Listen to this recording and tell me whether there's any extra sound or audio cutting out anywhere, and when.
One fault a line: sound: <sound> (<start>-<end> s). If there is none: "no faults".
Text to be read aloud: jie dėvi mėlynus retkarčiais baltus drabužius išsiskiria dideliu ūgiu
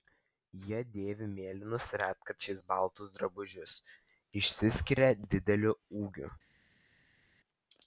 no faults